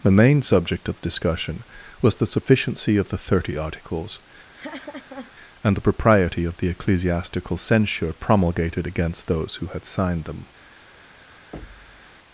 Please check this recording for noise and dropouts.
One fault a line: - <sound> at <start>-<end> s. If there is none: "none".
- laugh at 4.5-5.3 s
- thud at 11.5-12.2 s